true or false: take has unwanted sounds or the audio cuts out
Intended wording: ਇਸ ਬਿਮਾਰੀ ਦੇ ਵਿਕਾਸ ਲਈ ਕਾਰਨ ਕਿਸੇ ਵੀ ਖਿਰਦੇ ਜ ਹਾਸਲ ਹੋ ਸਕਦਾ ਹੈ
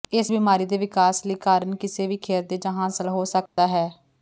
true